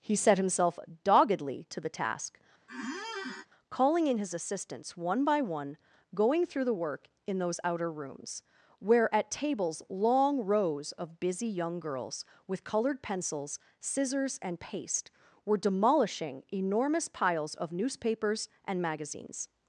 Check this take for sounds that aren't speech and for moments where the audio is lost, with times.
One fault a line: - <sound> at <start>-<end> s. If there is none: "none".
- squeak at 2.7-3.5 s